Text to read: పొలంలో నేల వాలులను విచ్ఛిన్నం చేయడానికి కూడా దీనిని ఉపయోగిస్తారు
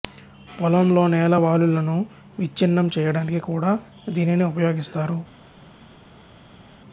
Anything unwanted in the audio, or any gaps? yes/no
no